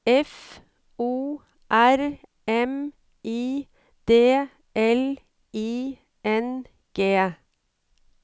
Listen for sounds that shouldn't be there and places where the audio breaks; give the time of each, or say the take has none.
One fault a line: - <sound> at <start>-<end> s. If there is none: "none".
none